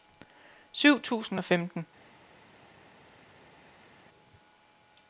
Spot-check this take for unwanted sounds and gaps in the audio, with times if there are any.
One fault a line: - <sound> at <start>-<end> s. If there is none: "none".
none